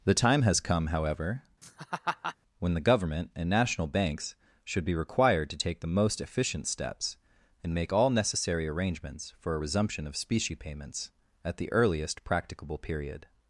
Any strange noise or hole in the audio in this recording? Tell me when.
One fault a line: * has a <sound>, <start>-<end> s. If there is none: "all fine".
* has a laugh, 1.6-2.4 s